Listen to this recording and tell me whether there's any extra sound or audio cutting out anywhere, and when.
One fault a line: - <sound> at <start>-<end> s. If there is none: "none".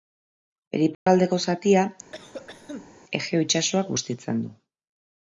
- dropout at 0.9-1.1 s
- cough at 2.1-2.9 s